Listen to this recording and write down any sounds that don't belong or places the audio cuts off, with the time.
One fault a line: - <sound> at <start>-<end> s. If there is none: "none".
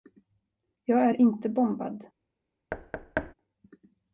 - thud at 2.7-3.3 s